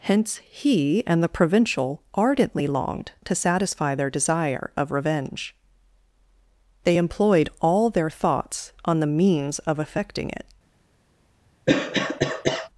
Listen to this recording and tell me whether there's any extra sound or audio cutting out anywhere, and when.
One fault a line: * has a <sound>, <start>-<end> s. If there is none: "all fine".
* has a cough, 11.7-12.7 s